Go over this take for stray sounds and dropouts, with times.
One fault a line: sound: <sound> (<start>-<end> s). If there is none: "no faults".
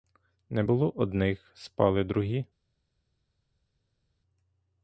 no faults